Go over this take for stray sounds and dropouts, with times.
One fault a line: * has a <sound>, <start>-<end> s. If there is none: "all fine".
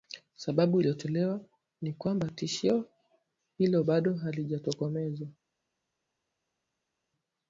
all fine